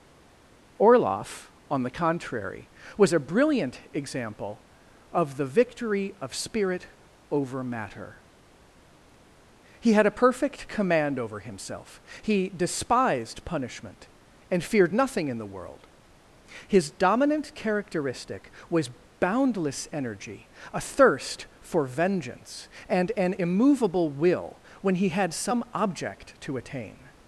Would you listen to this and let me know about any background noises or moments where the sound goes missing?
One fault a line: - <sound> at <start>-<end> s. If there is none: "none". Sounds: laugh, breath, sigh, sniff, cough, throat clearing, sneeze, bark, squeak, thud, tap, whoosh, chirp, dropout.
none